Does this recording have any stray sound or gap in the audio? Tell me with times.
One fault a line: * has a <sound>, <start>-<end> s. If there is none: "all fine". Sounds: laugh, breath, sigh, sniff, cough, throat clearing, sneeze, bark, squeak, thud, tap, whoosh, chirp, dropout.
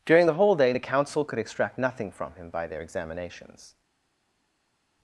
all fine